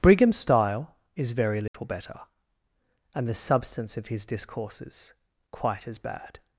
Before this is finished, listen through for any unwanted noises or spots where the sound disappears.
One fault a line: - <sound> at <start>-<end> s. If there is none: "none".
- dropout at 1.7-1.7 s